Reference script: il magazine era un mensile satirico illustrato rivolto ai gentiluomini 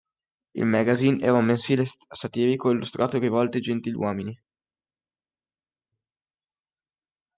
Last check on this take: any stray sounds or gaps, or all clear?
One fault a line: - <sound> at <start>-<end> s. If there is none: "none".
none